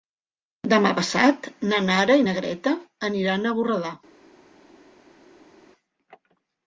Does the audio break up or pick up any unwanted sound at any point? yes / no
no